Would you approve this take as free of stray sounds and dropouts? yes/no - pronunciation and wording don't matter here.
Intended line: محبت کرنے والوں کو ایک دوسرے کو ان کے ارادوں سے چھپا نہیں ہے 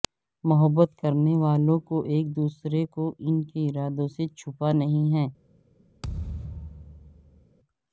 no